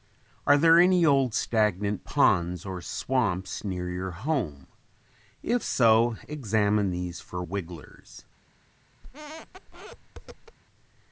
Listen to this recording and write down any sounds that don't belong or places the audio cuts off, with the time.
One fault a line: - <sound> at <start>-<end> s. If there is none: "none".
- squeak at 9.0-10.6 s